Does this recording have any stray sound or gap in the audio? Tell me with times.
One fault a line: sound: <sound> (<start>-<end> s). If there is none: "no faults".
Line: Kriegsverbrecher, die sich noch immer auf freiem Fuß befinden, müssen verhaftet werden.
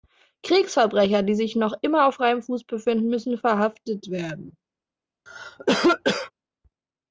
sound: cough (5.3-6.3 s)